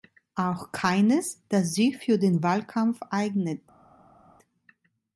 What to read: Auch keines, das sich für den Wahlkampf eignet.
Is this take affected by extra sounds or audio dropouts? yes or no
no